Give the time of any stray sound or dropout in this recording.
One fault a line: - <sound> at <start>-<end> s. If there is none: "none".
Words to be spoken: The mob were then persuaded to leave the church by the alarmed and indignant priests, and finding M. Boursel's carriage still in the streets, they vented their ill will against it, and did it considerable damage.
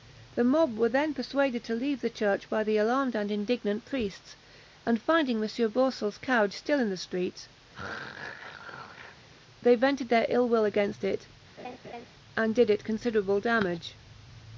- throat clearing at 7.7-9.3 s
- laugh at 11.6-12.1 s